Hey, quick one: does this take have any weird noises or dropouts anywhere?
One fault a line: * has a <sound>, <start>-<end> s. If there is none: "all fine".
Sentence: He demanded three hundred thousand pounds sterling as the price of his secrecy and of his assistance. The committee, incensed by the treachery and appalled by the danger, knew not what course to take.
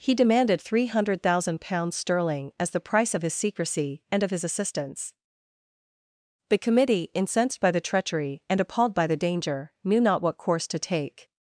all fine